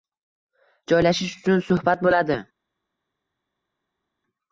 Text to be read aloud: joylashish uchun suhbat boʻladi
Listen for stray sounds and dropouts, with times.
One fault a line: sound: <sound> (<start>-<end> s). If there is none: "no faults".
no faults